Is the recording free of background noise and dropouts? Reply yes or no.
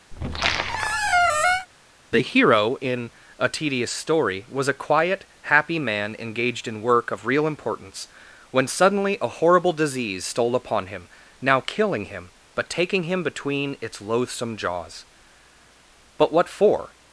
no